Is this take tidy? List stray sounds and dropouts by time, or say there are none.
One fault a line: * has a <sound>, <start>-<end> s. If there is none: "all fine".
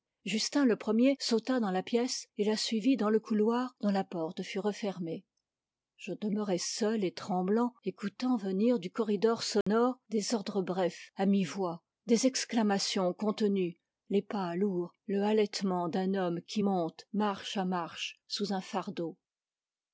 * has a dropout, 9.6-9.7 s